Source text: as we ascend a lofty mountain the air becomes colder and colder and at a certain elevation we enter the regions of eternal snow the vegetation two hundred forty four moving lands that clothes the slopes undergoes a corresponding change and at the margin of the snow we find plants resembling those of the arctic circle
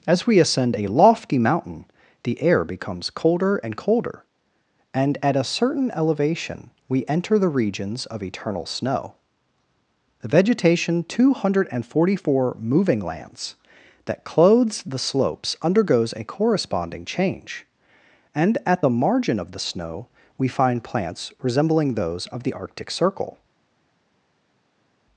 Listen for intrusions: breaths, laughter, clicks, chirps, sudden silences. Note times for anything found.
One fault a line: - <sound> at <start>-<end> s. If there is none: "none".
none